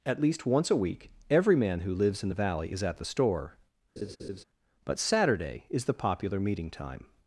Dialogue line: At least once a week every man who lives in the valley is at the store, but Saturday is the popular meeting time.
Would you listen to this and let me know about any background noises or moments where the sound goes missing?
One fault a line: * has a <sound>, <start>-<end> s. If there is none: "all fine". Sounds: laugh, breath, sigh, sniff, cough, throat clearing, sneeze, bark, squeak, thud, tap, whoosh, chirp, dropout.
* has a laugh, 4.0-4.4 s